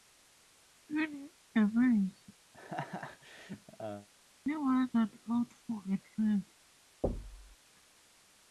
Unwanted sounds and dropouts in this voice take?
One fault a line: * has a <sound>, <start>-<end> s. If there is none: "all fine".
* has a laugh, 2.5-4.1 s
* has a thud, 7.0-7.6 s